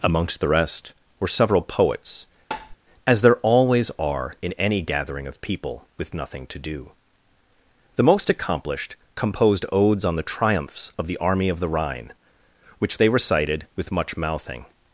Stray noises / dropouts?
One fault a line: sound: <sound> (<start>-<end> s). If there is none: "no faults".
sound: tap (2.5-2.8 s)